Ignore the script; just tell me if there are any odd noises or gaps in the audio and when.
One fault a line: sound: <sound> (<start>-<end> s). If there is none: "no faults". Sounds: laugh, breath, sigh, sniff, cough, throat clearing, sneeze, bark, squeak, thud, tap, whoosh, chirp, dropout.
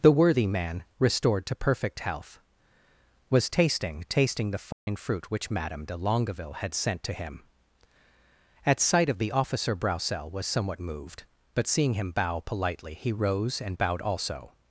sound: dropout (4.7-4.9 s)